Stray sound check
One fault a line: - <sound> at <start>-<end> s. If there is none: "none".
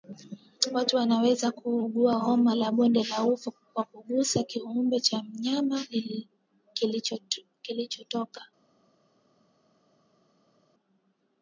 none